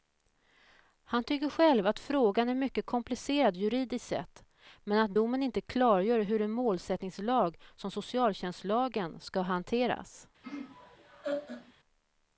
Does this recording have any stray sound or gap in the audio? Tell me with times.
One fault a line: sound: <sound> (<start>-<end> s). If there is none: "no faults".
sound: laugh (10.4-11.7 s)